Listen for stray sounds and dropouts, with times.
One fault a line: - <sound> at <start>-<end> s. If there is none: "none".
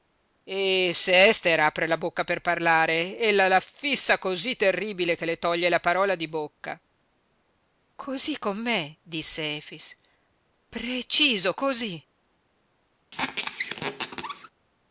- squeak at 13.1-14.5 s